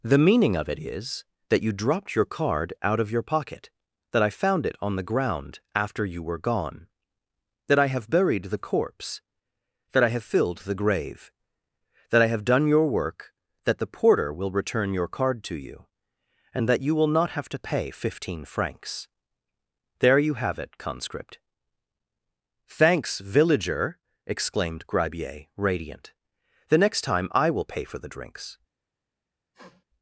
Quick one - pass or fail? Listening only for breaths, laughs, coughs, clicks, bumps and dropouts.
fail